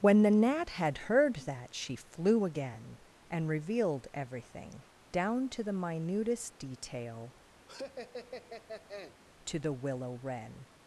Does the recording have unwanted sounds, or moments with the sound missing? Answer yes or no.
yes